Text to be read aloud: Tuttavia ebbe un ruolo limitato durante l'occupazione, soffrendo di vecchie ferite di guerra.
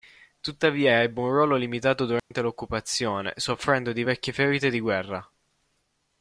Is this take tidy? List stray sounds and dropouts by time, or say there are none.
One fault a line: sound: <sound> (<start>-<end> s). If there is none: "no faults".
sound: dropout (2.2-2.3 s)